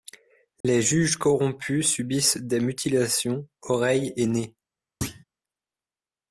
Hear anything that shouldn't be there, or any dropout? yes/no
yes